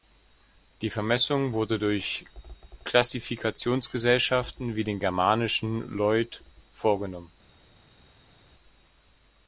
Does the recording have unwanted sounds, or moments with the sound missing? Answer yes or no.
no